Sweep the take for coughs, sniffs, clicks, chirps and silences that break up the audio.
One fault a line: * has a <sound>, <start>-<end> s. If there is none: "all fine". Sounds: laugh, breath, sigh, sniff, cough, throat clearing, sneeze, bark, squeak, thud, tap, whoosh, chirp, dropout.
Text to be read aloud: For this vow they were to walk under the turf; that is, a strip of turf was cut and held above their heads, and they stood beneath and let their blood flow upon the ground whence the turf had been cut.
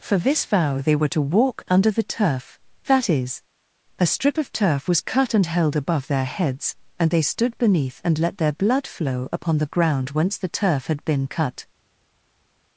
all fine